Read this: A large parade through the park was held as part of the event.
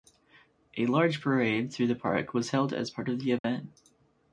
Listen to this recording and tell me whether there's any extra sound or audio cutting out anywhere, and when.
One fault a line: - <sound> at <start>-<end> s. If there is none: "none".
- dropout at 3.4-3.4 s